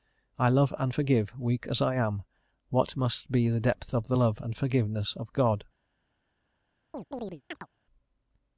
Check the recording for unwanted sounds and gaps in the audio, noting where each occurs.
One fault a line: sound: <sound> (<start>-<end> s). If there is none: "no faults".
sound: chirp (6.9-7.7 s)